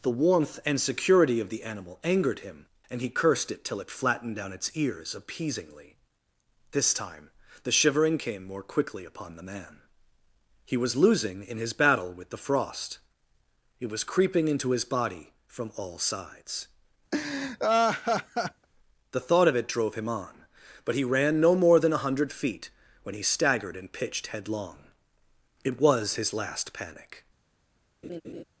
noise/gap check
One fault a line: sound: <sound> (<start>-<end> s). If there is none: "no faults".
sound: laugh (17.1-18.7 s)
sound: laugh (28.0-28.4 s)